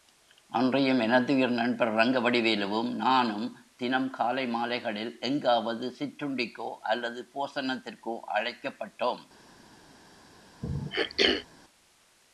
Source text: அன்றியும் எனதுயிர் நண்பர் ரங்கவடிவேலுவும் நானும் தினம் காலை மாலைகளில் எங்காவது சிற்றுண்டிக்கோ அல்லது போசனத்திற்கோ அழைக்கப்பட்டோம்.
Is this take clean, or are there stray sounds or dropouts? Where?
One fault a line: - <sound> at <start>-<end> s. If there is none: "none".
- throat clearing at 10.6-11.5 s